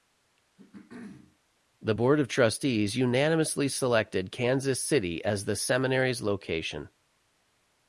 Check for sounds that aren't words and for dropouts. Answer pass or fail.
fail